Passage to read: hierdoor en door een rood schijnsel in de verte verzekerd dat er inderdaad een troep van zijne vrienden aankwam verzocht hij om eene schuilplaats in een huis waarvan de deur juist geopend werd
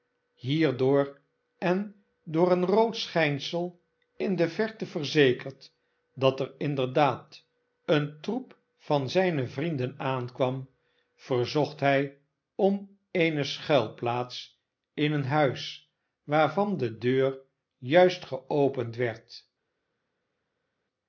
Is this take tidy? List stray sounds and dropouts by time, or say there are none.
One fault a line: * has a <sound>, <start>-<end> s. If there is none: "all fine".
all fine